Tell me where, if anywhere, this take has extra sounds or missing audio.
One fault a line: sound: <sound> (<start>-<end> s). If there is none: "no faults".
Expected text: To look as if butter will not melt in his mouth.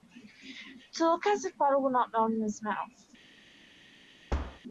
sound: thud (4.3-4.6 s)